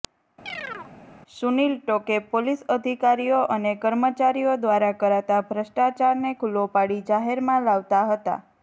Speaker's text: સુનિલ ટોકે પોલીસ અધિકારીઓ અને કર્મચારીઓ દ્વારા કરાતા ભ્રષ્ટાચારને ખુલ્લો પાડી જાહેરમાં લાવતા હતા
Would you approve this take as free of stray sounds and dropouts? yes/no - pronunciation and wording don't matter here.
no